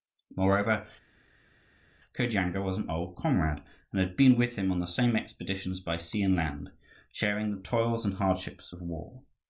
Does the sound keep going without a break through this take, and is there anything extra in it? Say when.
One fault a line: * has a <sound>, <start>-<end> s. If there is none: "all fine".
all fine